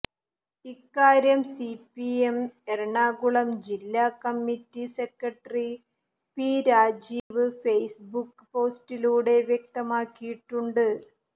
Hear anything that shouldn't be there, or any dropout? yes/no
yes